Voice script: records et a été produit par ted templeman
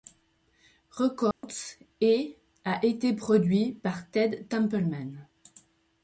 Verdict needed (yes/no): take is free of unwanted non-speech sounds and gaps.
no